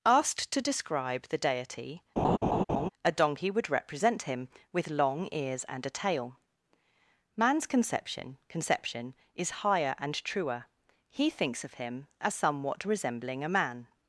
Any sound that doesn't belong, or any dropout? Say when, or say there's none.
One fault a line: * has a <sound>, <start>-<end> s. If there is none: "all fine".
* has a laugh, 2.2-2.9 s